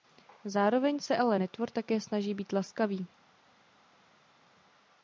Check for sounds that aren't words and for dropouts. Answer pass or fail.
pass